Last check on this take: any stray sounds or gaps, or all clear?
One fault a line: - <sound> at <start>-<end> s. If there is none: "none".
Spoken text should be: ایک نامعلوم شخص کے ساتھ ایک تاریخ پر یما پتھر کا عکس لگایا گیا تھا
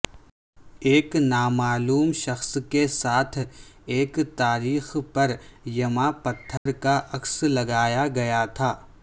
- dropout at 6.6-6.7 s